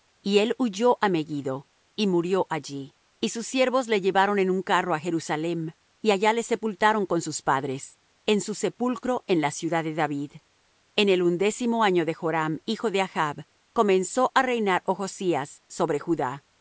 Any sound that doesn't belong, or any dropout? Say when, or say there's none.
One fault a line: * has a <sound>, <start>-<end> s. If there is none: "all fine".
all fine